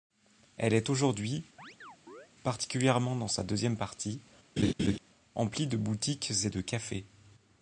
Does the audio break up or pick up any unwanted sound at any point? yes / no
yes